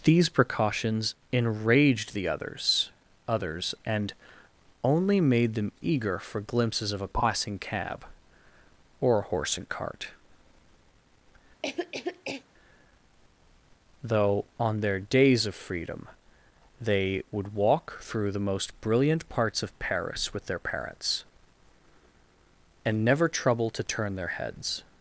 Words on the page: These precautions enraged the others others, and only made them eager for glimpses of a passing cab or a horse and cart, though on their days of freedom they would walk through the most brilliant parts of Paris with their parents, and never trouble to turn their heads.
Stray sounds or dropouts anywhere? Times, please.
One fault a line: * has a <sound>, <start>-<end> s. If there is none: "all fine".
* has a cough, 11.6-12.4 s